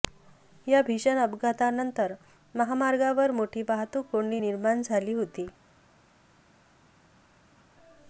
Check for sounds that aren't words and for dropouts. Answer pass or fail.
pass